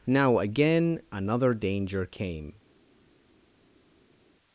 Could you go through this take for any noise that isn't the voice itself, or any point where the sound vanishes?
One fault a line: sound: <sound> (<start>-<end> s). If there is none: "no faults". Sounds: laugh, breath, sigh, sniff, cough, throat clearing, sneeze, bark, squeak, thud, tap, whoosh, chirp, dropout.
no faults